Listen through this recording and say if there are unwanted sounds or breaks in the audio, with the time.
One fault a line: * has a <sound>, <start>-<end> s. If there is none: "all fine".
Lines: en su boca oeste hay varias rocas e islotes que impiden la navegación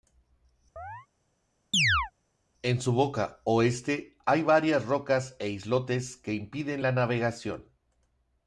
* has a chirp, 0.8-1.1 s
* has a chirp, 1.7-2.1 s